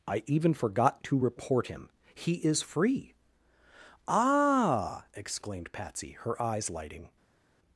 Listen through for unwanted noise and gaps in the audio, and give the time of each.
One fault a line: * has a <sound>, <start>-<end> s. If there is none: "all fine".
all fine